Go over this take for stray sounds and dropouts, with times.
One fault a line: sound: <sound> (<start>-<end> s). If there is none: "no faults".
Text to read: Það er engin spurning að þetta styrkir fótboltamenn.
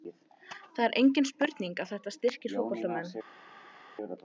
no faults